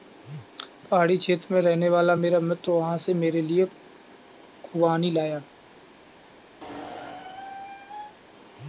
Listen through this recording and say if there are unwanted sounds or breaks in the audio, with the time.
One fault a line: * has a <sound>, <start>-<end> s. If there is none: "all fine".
* has a squeak, 6.6-8.2 s